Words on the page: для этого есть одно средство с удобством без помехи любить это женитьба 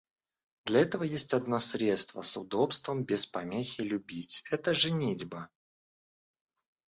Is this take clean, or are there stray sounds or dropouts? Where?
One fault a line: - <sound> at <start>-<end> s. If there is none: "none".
none